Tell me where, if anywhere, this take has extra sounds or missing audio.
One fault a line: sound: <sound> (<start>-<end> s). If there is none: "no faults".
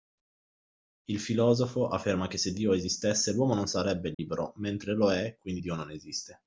sound: dropout (4.1-4.2 s)